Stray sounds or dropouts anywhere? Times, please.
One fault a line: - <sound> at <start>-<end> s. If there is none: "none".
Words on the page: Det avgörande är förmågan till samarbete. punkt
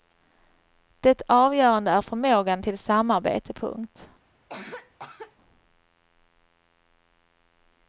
- cough at 4.5-5.4 s